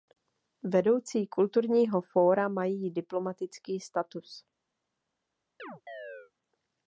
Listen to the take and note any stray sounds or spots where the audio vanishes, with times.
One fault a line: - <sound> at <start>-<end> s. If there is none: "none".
- chirp at 5.6-6.3 s